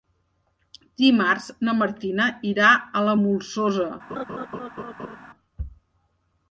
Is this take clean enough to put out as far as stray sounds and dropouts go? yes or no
no